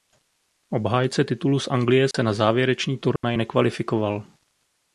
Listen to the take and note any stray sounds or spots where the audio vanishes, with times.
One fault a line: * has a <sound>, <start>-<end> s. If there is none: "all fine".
* has a dropout, 2.1-2.1 s
* has a dropout, 3.2-3.2 s